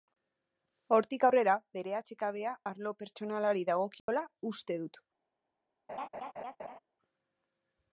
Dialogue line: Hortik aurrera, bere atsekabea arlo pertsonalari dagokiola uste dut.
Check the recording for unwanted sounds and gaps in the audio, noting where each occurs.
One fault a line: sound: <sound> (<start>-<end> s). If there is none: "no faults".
sound: dropout (4.0-4.1 s)
sound: laugh (5.9-6.8 s)